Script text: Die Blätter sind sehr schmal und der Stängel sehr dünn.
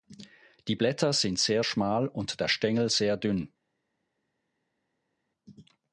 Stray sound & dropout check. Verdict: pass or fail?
pass